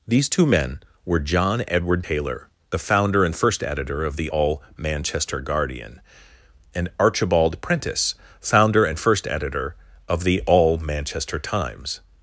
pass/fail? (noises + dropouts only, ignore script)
pass